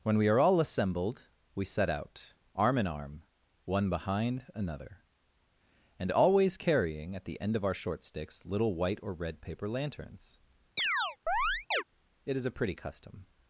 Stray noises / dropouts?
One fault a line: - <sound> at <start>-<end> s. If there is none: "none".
- chirp at 10.8-11.8 s